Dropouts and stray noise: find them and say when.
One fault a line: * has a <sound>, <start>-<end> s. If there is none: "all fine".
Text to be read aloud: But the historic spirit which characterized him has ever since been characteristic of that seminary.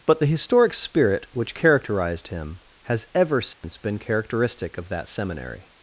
* has a dropout, 3.5-3.6 s